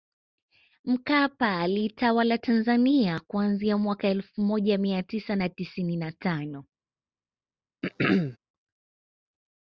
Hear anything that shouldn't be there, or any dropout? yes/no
yes